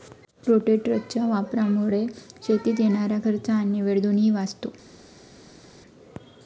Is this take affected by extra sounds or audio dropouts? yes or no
no